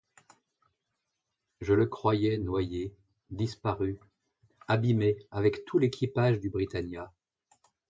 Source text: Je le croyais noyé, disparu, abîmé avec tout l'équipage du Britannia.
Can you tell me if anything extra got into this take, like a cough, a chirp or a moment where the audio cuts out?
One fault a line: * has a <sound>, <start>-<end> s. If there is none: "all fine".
all fine